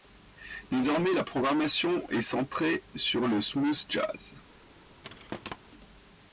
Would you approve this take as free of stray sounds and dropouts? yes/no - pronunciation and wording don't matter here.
no